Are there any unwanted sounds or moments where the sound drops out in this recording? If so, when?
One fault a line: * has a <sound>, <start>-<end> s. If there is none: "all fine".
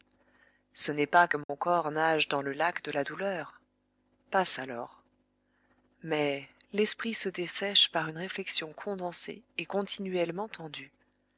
* has a dropout, 1.4-1.5 s